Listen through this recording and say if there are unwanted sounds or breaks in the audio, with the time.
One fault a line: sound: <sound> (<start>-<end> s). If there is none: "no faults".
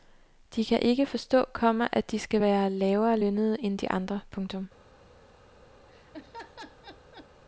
sound: laugh (5.9-7.3 s)